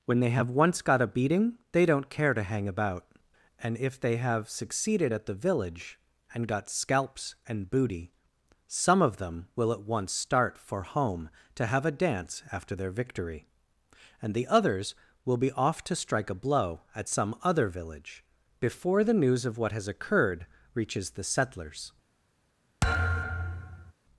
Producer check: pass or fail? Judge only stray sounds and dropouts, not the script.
fail